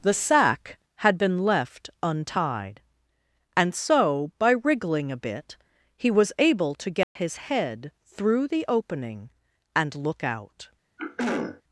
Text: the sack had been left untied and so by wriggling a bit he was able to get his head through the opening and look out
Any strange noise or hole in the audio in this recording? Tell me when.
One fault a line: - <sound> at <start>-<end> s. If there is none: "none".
- dropout at 7.0-7.2 s
- throat clearing at 11.0-11.6 s